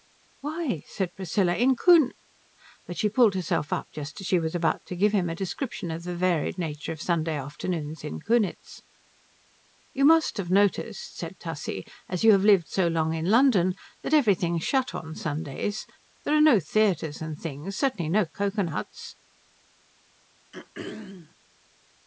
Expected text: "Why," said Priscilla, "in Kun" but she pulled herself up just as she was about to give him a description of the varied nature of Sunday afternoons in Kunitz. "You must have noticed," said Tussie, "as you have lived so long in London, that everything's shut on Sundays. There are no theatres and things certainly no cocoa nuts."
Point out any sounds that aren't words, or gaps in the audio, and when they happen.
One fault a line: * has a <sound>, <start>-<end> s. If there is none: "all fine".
* has a throat clearing, 20.5-21.4 s